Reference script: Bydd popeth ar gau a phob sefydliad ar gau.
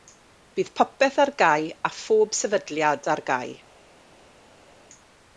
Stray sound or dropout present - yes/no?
no